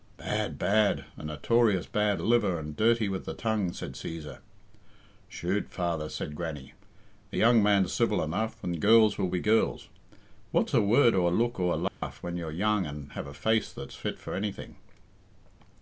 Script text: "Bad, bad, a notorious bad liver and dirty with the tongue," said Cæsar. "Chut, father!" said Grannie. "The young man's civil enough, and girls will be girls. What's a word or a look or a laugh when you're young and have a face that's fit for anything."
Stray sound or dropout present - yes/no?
yes